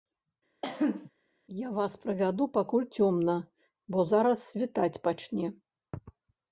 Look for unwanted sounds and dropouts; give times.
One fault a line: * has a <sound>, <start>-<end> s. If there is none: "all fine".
* has a cough, 0.6-1.1 s